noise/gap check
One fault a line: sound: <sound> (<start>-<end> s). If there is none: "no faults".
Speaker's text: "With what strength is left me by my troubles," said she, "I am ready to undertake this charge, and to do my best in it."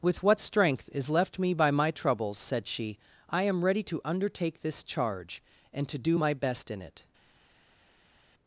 no faults